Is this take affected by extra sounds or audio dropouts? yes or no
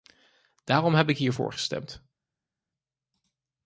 no